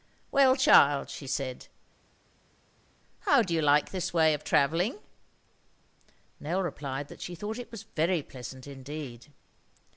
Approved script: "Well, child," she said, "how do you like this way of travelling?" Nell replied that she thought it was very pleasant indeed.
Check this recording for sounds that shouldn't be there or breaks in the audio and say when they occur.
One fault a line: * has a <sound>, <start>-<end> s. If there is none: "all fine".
all fine